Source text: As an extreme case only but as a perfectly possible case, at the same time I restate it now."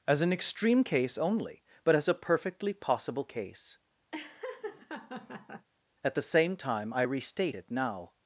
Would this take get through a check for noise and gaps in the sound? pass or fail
fail